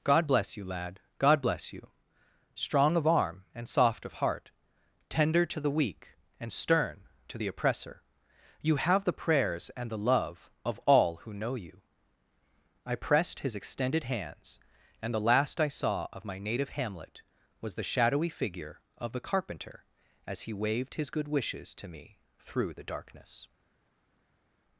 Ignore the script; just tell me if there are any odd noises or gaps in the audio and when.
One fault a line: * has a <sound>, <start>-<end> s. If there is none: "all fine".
all fine